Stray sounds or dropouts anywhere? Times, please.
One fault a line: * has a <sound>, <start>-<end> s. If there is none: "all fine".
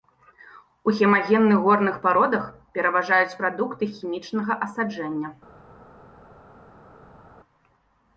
all fine